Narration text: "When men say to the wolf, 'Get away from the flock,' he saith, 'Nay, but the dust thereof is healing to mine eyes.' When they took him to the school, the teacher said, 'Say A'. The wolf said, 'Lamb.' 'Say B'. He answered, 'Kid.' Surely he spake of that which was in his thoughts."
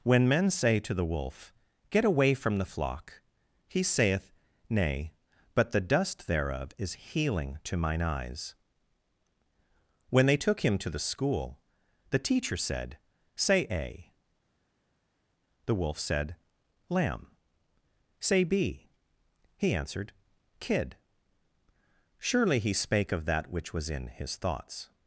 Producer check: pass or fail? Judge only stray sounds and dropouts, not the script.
pass